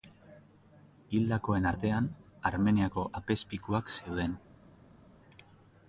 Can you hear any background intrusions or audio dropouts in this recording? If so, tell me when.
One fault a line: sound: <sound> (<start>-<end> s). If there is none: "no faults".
no faults